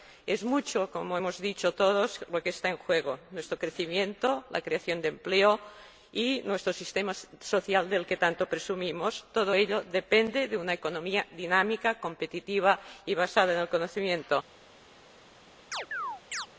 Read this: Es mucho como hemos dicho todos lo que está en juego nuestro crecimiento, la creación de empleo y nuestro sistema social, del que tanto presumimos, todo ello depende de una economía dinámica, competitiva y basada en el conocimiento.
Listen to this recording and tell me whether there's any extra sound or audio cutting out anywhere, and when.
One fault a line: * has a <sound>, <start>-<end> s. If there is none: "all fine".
* has a chirp, 15.7-16.5 s